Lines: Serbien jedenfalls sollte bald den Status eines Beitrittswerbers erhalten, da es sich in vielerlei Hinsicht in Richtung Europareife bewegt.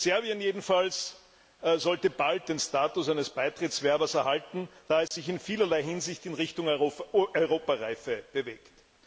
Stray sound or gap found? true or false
true